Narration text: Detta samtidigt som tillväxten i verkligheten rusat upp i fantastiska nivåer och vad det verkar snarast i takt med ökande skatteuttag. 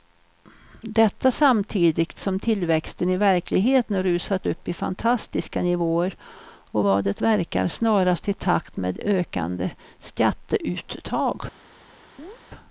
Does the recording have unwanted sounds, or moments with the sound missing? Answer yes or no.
yes